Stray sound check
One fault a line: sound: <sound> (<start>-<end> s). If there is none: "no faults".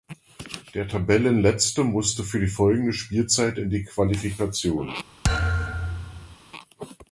sound: thud (5.2-6.4 s)